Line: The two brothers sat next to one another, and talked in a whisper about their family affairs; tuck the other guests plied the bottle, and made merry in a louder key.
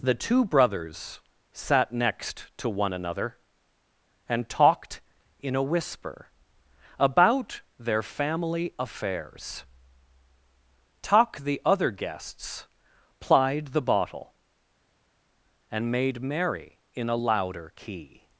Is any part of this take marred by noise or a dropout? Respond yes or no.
no